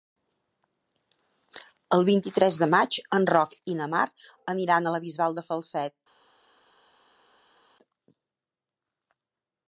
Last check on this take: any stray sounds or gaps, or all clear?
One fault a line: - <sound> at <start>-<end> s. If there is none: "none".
none